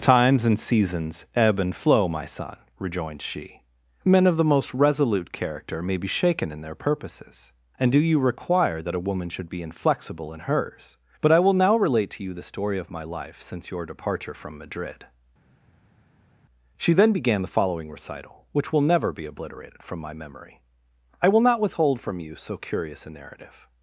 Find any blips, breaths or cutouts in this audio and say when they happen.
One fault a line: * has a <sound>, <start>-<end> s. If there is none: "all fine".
all fine